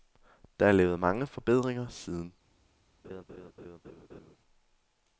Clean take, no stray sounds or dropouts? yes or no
no